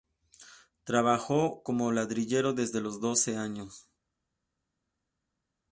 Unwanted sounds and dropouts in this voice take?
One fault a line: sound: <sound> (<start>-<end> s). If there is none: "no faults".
no faults